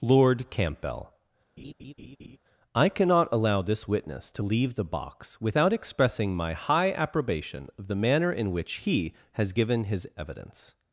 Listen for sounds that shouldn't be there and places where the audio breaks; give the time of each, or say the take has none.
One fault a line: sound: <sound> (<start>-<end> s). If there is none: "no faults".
sound: laugh (1.6-2.4 s)